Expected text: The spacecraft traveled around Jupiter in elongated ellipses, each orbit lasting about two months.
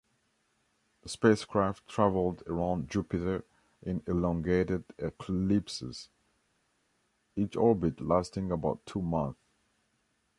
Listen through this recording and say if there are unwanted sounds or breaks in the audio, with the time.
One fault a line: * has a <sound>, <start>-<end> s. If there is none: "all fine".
all fine